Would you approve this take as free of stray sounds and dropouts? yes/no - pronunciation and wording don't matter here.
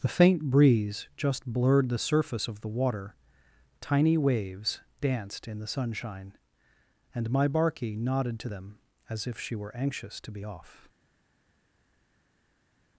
yes